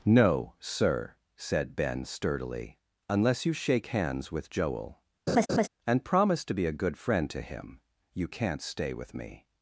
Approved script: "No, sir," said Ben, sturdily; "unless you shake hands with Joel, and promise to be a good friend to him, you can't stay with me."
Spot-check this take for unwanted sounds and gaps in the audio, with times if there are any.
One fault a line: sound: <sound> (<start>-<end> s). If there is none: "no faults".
sound: laugh (5.3-5.7 s)